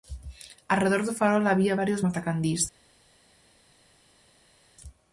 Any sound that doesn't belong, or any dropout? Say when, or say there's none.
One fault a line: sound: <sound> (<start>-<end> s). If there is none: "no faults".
no faults